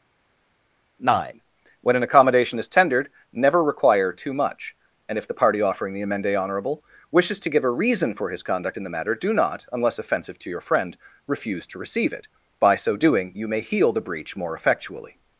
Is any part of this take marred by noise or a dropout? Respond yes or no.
no